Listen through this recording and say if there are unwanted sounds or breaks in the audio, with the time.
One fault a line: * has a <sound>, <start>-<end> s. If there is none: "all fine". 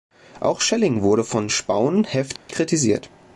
* has a dropout, 2.4-2.5 s